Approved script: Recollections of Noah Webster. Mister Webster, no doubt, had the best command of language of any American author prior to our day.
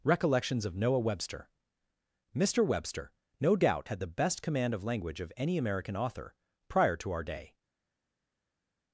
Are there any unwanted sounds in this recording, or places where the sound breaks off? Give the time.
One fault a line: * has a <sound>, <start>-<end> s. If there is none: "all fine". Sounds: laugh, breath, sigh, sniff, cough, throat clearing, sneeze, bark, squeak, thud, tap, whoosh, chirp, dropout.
all fine